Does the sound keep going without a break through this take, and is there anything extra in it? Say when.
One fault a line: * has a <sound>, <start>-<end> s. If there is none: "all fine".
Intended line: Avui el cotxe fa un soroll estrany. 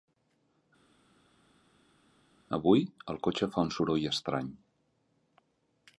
all fine